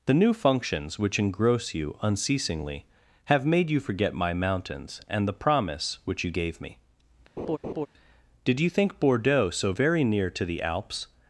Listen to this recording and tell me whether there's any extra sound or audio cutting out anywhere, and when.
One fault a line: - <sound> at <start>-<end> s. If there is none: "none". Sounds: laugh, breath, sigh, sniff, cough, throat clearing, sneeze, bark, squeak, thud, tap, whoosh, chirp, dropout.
- laugh at 7.4-7.9 s